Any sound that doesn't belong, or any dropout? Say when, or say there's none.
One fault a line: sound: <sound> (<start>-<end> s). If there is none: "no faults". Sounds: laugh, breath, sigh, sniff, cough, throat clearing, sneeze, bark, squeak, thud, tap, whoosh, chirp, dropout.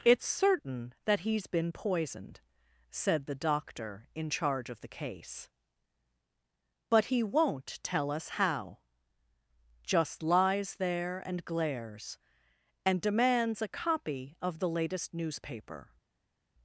no faults